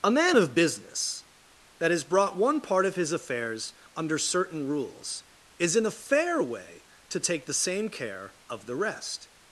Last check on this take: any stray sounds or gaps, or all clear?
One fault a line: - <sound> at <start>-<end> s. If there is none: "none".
none